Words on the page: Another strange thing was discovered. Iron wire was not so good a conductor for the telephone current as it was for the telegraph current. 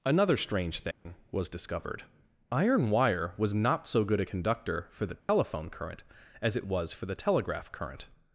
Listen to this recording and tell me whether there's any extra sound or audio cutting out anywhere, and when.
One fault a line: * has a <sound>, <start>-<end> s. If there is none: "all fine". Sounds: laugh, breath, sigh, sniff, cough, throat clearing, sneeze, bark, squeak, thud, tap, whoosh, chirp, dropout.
* has a dropout, 0.9-1.1 s
* has a dropout, 5.2-5.3 s